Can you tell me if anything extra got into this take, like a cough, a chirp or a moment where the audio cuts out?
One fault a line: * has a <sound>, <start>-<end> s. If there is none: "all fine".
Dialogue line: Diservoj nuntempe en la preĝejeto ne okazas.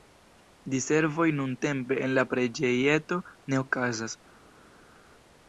all fine